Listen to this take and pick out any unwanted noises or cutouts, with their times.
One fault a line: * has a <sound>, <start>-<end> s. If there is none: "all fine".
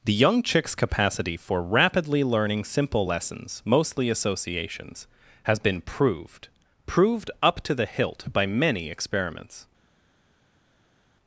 all fine